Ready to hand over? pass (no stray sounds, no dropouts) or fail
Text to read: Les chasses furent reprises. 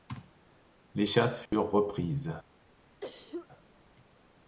fail